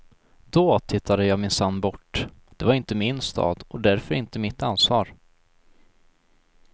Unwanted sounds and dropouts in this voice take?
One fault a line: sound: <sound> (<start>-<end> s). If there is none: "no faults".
no faults